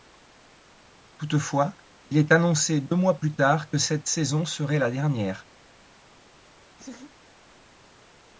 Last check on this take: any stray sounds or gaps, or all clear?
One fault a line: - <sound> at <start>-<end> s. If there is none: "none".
- laugh at 6.8-7.2 s